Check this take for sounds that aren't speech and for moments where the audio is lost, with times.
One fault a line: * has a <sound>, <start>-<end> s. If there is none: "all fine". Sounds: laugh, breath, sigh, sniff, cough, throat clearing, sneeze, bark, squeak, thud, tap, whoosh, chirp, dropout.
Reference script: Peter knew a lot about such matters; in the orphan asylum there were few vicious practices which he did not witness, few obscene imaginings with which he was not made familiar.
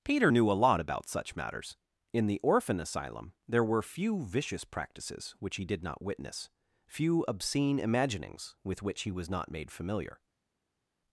all fine